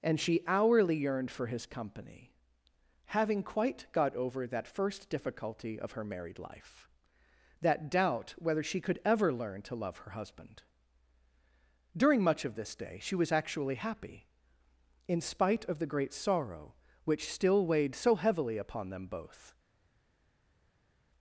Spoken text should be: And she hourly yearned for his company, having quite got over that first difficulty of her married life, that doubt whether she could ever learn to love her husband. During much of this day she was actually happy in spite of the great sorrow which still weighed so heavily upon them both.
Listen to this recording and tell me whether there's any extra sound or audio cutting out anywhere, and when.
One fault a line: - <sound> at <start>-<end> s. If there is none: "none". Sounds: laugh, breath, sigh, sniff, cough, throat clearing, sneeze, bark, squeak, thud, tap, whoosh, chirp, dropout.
none